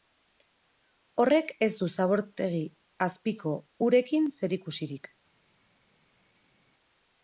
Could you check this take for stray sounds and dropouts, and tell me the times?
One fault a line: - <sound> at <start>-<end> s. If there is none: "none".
none